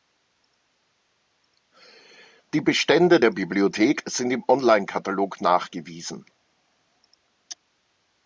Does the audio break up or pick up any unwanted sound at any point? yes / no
no